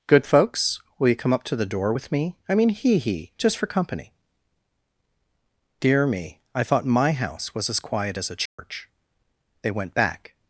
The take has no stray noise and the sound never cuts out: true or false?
false